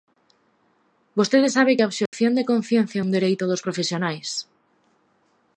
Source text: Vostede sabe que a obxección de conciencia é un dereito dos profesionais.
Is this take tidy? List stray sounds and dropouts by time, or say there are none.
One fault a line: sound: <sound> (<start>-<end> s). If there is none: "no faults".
sound: dropout (2.1-2.1 s)